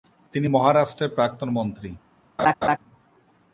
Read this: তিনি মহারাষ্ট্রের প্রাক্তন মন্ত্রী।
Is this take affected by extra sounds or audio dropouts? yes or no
yes